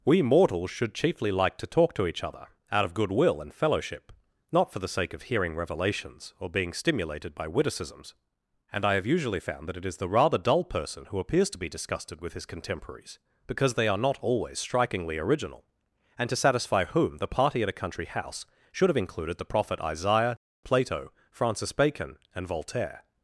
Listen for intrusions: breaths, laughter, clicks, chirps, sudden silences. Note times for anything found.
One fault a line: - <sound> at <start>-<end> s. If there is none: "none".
none